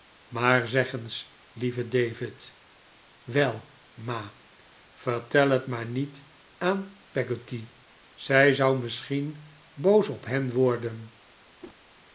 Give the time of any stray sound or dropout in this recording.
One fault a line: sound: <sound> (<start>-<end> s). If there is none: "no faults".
sound: whoosh (11.6-11.8 s)